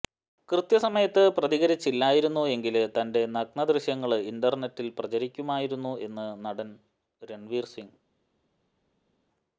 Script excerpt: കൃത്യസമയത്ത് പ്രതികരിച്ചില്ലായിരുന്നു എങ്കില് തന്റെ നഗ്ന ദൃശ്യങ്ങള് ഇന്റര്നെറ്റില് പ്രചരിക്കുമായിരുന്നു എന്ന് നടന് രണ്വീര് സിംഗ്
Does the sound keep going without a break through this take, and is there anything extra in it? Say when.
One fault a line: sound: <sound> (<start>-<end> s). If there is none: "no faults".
no faults